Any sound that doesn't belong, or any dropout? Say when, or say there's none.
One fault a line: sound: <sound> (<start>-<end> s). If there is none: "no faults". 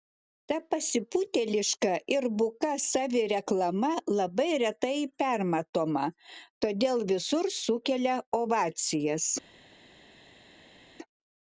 no faults